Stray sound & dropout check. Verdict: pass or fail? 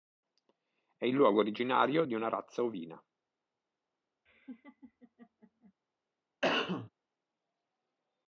fail